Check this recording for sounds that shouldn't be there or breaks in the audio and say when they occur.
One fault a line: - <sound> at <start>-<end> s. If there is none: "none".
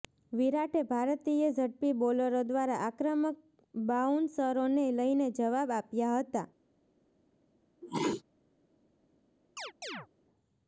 - sneeze at 7.8-8.2 s
- chirp at 9.6-10.1 s